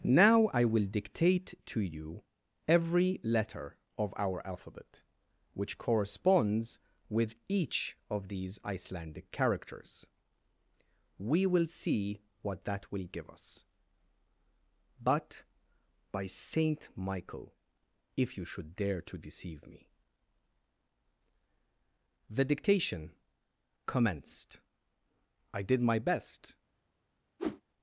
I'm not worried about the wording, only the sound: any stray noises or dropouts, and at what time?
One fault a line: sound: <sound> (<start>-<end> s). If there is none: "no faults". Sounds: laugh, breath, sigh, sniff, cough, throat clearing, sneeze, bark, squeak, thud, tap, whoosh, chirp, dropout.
sound: whoosh (27.4-27.6 s)